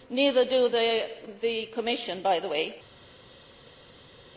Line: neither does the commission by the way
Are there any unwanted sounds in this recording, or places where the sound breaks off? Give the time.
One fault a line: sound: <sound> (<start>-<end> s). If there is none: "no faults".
no faults